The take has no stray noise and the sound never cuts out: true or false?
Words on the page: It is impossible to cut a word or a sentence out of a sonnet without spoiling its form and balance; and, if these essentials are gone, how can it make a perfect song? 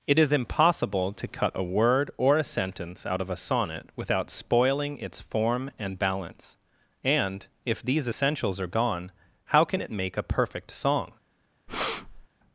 false